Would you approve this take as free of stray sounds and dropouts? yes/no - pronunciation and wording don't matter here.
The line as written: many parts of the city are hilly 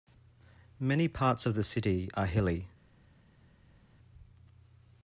yes